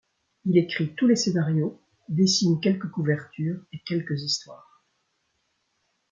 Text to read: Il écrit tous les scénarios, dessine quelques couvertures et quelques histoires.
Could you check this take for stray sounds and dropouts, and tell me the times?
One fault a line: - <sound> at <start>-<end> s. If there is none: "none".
none